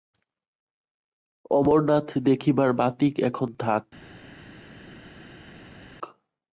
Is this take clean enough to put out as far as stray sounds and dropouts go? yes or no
yes